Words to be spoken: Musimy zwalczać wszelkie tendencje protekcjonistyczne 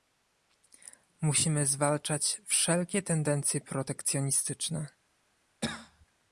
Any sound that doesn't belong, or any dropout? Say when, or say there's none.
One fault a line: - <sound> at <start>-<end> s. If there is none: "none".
- cough at 5.6-6.1 s